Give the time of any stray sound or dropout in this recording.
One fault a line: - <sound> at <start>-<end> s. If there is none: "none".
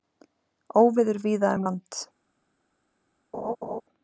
- laugh at 3.3-3.8 s